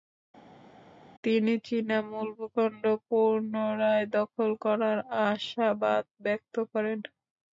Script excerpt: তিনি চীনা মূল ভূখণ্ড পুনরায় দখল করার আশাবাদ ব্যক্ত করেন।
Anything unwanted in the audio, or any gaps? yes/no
no